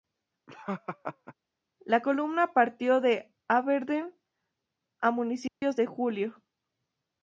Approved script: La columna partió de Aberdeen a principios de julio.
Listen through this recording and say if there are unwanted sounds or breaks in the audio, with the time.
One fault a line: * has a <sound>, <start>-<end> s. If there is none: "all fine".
* has a laugh, 0.5-1.3 s
* has a dropout, 5.5-5.6 s